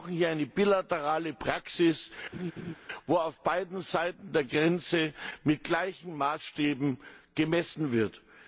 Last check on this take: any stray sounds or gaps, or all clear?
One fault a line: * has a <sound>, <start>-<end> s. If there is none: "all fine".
* has a laugh, 2.3-2.7 s